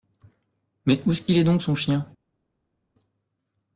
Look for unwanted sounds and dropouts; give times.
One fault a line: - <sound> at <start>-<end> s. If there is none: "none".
none